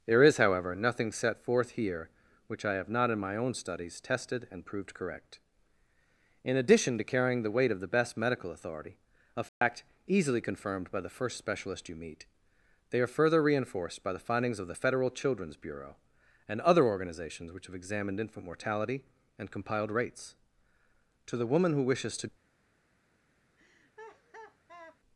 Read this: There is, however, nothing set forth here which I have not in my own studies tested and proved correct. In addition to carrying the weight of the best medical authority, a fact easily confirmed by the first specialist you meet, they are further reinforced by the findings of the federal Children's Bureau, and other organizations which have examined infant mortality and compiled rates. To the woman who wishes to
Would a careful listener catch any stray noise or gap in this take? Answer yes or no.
yes